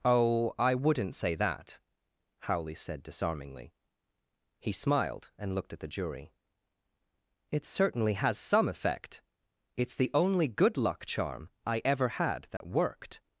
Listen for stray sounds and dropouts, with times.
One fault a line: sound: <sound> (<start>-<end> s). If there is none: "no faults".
sound: dropout (12.6-12.6 s)